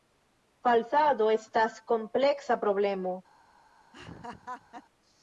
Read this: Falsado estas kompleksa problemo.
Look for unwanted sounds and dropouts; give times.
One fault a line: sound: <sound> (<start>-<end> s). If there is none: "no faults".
sound: laugh (3.9-4.8 s)